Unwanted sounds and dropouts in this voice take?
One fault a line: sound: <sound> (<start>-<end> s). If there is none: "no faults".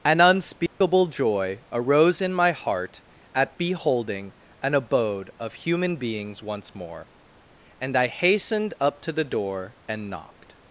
sound: dropout (0.7-0.8 s)